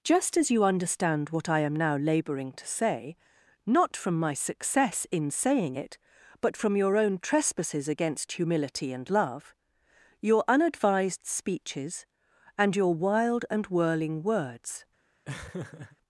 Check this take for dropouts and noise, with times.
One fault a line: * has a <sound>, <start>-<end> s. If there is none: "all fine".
* has a laugh, 15.2-16.0 s